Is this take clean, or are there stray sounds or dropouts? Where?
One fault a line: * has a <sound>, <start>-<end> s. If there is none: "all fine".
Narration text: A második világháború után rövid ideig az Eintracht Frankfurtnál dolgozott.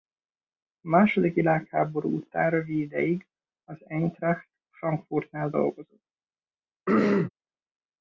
* has a throat clearing, 6.9-7.3 s